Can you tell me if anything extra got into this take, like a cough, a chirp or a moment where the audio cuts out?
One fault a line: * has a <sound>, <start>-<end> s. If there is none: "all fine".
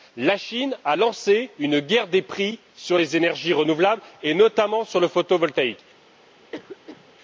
* has a cough, 6.5-7.1 s